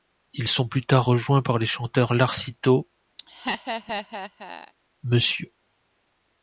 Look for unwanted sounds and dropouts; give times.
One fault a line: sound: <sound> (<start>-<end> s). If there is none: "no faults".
sound: laugh (3.2-4.7 s)